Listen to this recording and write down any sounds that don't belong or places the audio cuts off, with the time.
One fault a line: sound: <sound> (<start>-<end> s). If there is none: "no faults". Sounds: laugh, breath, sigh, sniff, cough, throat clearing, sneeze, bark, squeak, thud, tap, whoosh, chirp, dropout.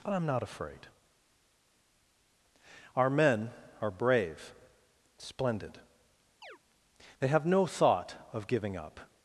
sound: chirp (6.4-6.6 s)